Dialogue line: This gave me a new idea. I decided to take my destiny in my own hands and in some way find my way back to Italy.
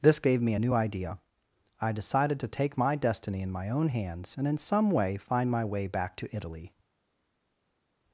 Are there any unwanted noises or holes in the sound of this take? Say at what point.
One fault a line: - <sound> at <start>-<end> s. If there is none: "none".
none